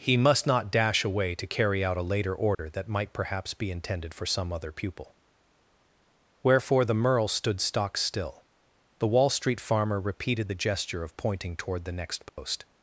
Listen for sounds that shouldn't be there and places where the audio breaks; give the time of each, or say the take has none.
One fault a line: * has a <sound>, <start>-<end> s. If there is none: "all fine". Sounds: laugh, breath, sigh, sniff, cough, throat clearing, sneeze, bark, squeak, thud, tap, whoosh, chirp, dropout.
* has a dropout, 2.5-2.6 s
* has a dropout, 12.3-12.4 s